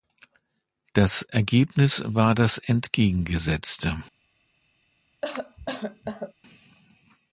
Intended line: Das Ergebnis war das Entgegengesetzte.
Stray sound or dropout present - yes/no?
yes